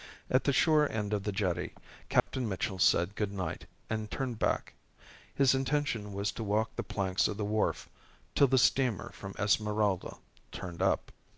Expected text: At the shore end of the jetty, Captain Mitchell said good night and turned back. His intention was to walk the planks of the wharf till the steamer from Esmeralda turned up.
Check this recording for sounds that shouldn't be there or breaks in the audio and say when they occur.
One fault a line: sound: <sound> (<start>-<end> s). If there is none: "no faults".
sound: dropout (2.2-2.3 s)